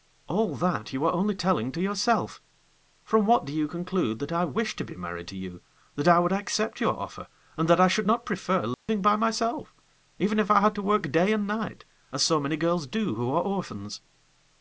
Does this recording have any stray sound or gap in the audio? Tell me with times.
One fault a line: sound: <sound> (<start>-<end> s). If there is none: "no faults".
sound: dropout (8.7-8.9 s)